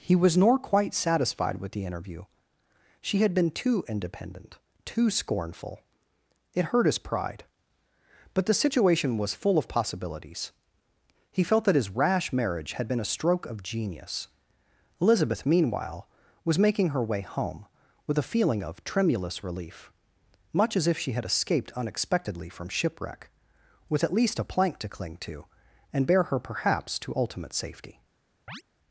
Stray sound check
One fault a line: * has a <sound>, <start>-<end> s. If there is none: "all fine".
* has a chirp, 28.5-28.6 s